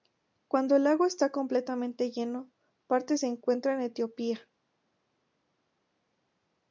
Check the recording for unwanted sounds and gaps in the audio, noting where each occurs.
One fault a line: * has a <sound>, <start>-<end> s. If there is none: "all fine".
all fine